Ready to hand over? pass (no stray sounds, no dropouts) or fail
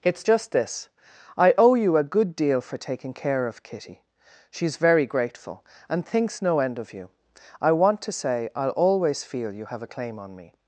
pass